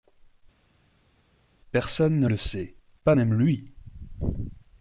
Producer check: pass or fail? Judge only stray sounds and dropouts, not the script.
pass